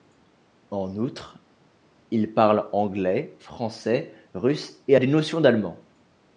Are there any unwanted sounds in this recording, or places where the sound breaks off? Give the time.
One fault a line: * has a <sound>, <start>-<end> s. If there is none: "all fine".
all fine